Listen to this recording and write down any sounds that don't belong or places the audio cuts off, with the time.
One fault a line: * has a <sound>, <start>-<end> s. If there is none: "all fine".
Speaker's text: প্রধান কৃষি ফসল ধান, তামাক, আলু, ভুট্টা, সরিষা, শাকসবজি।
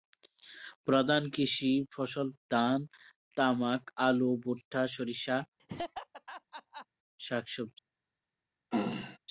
* has a laugh, 5.6-6.9 s
* has a throat clearing, 8.7-9.2 s